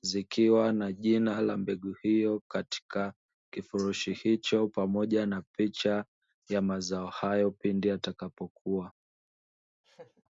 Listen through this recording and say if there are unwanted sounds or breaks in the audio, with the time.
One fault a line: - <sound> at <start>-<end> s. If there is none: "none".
- laugh at 9.8-10.2 s